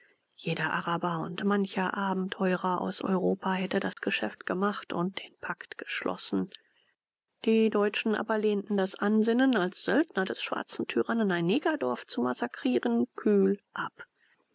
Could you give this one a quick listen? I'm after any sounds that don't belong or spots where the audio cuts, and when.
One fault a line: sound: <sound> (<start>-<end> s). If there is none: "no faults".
sound: dropout (3.9-4.0 s)